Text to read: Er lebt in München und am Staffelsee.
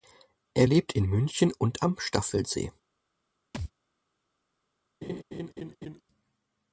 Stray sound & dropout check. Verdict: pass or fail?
fail